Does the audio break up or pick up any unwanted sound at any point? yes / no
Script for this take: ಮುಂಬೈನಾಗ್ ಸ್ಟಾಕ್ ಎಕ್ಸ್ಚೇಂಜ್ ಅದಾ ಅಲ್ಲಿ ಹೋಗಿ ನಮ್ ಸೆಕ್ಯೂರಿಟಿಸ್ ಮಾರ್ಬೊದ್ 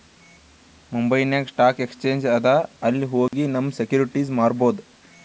yes